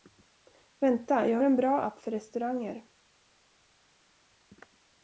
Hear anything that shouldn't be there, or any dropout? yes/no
no